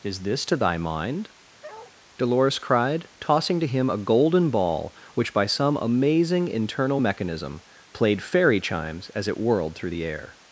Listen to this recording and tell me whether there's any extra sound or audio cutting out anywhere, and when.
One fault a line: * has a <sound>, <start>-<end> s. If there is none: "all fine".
* has a bark, 1.6-1.9 s